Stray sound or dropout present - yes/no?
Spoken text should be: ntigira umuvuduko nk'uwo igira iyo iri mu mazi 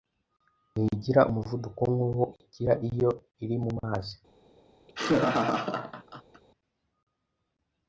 yes